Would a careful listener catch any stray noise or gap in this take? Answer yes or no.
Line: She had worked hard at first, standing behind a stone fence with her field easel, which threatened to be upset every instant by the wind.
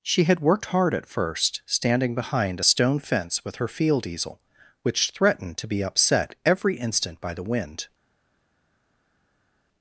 no